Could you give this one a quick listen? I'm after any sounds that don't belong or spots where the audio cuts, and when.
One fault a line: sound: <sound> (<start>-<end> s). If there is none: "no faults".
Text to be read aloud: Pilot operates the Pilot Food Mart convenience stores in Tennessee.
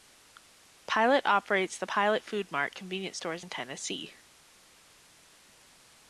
no faults